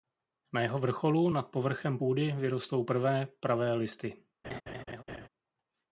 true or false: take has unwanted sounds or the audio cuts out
true